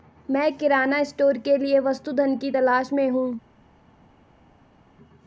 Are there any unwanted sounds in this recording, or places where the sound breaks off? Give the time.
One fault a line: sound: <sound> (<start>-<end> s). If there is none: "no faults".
no faults